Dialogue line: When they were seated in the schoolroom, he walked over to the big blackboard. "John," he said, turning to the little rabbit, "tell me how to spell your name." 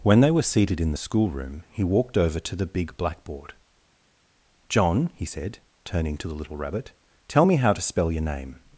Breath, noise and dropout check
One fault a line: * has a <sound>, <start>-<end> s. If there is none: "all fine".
all fine